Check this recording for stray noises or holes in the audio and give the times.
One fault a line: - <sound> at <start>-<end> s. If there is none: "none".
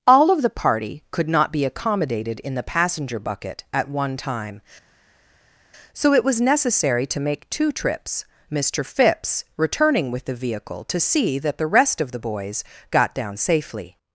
none